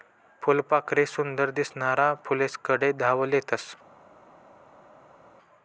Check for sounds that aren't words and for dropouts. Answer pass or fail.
pass